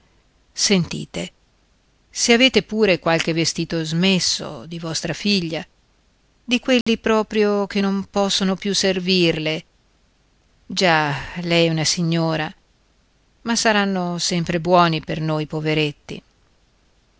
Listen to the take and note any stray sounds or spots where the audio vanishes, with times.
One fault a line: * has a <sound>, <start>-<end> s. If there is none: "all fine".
* has a dropout, 6.8-6.9 s